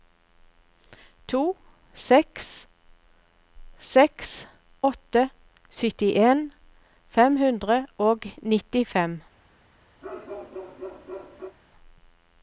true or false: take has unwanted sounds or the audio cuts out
true